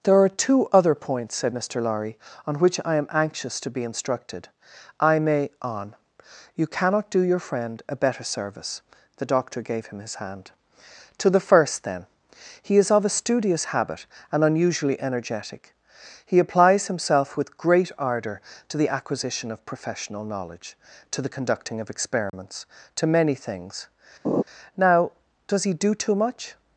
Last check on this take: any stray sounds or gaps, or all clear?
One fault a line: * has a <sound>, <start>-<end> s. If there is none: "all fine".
* has a dropout, 22.3-22.3 s
* has a laugh, 24.2-24.4 s